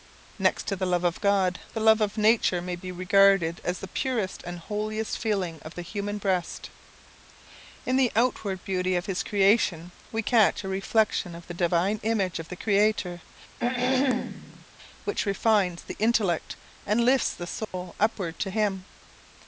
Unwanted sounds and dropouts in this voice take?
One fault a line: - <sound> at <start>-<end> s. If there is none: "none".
- throat clearing at 13.6-14.7 s
- dropout at 17.6-17.7 s